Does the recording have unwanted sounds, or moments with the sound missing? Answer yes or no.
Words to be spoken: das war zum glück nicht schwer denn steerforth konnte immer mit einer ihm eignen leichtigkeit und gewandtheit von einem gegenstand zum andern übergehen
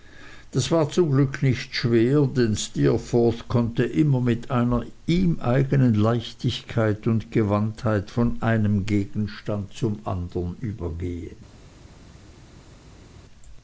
no